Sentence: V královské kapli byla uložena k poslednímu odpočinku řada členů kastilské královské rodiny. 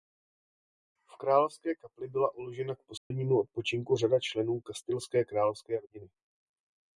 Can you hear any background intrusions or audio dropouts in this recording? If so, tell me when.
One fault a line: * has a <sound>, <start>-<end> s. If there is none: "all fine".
* has a dropout, 3.0-3.1 s